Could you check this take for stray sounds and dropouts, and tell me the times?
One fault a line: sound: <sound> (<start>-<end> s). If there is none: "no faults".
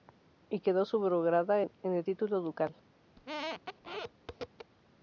sound: squeak (3.1-4.7 s)